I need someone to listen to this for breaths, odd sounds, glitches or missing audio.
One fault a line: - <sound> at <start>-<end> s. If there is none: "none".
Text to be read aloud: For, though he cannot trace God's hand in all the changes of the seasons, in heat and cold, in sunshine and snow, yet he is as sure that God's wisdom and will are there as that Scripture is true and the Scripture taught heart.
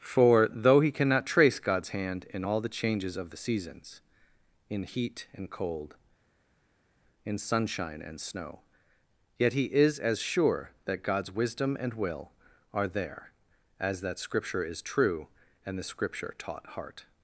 none